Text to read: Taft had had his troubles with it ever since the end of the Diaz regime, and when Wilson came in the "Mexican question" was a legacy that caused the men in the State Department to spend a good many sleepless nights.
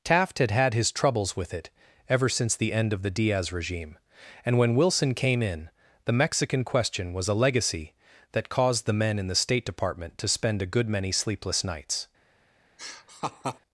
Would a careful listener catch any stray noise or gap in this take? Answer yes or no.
yes